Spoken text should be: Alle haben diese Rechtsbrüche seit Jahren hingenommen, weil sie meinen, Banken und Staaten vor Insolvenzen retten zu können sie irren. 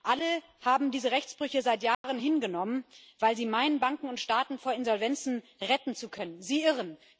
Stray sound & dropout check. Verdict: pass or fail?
fail